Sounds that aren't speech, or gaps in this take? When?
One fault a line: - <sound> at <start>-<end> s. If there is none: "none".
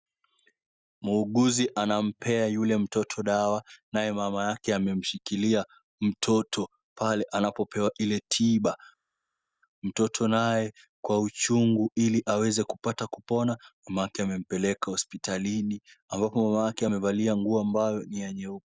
none